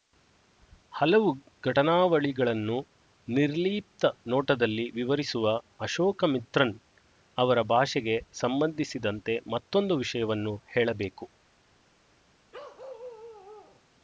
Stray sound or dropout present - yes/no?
yes